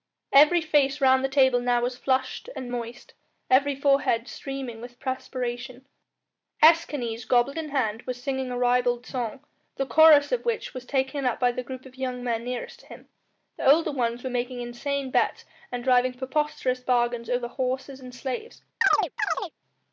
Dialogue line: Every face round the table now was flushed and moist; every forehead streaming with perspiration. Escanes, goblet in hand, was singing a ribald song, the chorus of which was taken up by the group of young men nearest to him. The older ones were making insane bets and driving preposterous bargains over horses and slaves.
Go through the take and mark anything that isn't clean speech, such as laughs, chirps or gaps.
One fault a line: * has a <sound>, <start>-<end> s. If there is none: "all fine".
* has a chirp, 18.8-19.5 s